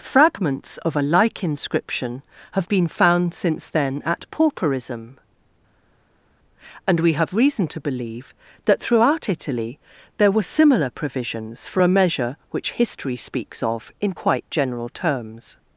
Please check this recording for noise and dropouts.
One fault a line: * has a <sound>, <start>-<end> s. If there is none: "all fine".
all fine